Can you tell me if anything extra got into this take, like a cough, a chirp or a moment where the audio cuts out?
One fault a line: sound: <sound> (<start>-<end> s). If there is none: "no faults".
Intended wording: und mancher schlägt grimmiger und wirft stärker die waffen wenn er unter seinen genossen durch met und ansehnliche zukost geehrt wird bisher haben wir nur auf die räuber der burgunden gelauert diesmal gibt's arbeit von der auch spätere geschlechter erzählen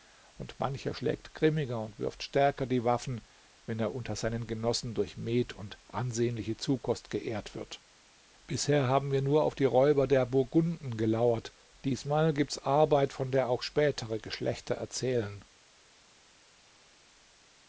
no faults